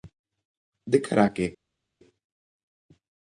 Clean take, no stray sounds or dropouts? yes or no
yes